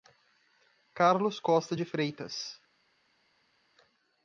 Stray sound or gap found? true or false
false